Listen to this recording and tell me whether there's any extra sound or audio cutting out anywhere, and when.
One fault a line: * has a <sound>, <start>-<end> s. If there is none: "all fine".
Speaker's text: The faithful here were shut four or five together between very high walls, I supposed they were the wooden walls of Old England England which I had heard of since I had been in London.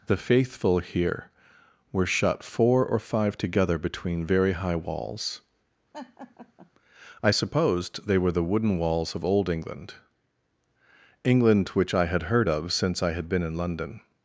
* has a laugh, 5.9-6.7 s